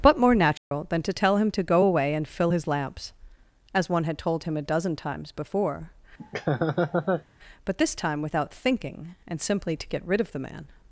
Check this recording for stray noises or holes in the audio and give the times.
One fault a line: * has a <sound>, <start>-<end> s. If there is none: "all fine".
* has a dropout, 0.6-0.7 s
* has a laugh, 6.2-7.2 s